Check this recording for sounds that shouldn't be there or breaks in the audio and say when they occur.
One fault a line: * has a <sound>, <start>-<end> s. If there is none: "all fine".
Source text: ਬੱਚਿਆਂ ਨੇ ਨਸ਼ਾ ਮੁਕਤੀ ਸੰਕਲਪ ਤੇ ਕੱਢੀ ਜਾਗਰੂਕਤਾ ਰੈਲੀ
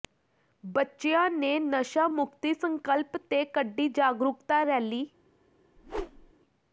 * has a whoosh, 5.8-6.3 s